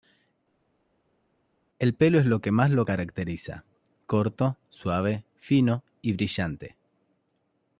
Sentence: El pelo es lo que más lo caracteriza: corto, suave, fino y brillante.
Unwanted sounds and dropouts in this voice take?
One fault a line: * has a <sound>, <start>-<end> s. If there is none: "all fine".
all fine